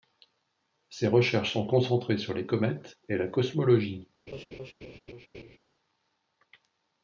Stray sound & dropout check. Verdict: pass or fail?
fail